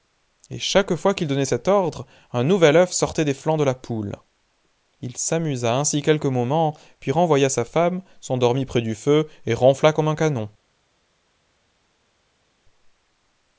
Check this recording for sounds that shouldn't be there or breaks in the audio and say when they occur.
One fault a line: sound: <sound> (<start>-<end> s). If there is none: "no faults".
no faults